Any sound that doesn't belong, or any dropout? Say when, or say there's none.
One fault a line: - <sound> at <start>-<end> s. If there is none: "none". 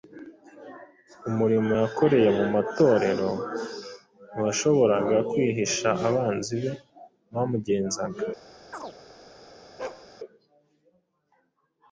- chirp at 8.7-9.0 s
- bark at 9.8-10.1 s